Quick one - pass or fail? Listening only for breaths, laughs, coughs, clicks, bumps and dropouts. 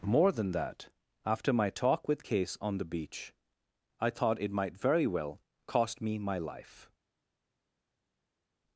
pass